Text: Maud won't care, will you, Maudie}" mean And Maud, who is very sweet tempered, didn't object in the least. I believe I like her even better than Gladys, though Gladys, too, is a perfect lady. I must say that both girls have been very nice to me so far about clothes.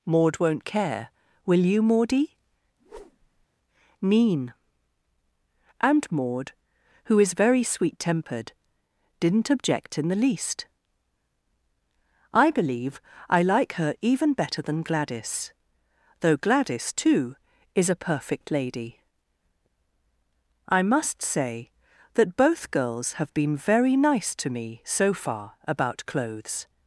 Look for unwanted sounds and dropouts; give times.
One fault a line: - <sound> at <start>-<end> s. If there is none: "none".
- whoosh at 2.8-3.5 s